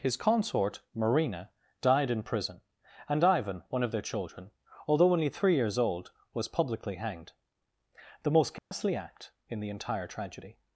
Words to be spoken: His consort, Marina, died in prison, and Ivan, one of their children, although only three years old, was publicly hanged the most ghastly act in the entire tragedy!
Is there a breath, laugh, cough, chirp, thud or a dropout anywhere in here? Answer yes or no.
yes